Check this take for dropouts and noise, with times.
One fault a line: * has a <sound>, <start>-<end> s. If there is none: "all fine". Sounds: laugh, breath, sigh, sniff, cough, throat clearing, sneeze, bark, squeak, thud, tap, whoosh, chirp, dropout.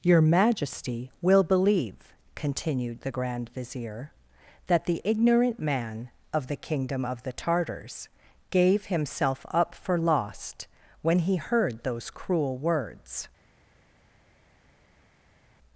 all fine